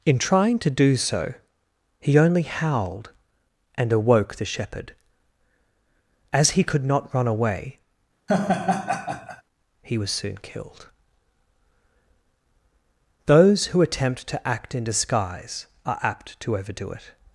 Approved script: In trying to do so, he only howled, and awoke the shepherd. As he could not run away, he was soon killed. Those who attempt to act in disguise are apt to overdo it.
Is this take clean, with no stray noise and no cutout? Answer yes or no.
no